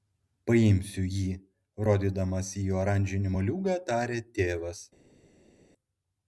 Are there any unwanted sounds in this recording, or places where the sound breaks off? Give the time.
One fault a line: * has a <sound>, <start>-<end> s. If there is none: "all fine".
all fine